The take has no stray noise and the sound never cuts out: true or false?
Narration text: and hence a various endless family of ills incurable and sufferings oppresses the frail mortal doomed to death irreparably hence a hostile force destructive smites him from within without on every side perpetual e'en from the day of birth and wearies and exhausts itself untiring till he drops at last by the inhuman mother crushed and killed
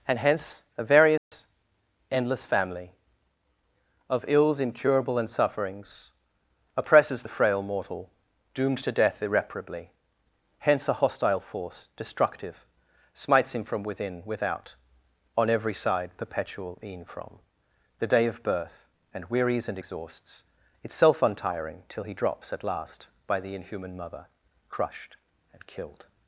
false